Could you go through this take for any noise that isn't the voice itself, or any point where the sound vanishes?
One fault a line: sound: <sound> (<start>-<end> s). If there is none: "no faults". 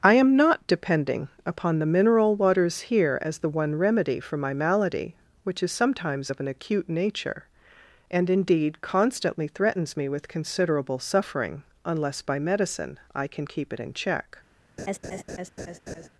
sound: laugh (14.8-16.1 s)